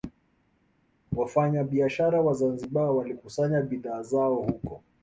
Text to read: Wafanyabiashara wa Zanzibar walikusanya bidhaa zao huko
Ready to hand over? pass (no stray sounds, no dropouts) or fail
pass